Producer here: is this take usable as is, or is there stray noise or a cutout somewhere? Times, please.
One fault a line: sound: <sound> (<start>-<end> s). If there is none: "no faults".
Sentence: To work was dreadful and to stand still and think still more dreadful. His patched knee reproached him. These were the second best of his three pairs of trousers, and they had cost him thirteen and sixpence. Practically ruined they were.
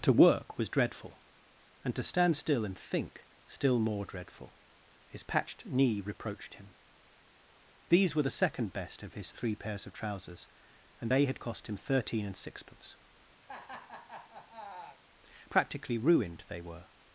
sound: laugh (13.4-15.0 s)